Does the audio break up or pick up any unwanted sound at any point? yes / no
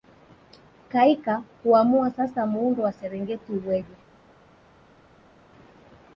no